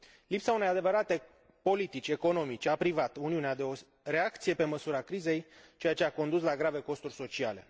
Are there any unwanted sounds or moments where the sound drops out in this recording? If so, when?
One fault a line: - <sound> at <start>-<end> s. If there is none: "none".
none